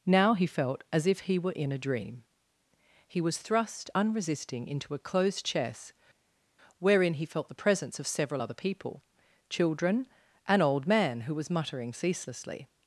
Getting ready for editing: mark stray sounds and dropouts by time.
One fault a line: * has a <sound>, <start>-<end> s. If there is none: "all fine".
all fine